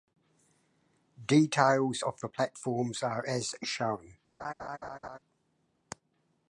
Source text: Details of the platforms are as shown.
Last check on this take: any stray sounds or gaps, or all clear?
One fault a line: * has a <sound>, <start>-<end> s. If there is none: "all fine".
* has a laugh, 4.4-5.2 s